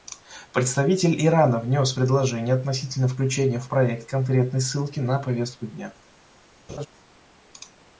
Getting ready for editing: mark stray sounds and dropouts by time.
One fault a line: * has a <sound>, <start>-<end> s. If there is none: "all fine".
* has a laugh, 6.7-6.9 s